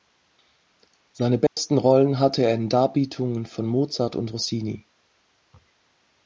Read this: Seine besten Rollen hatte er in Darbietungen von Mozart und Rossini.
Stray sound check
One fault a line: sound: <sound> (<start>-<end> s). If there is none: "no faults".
sound: dropout (1.5-1.6 s)